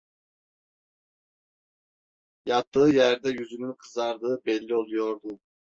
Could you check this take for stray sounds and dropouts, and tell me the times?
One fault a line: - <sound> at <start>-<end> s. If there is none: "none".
none